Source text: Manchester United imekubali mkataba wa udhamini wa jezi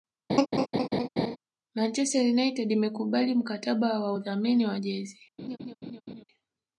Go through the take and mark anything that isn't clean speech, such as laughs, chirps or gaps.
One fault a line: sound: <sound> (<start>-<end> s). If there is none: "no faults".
sound: laugh (0.3-1.4 s)
sound: laugh (5.4-6.2 s)